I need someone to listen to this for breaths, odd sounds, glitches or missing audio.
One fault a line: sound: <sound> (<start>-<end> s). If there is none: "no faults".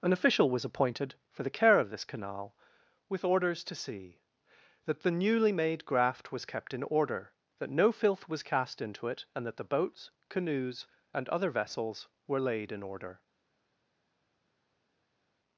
no faults